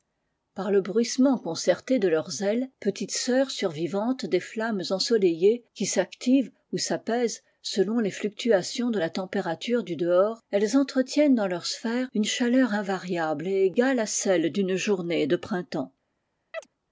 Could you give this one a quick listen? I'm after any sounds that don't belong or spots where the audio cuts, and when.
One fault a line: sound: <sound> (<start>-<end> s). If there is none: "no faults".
sound: chirp (16.5-16.7 s)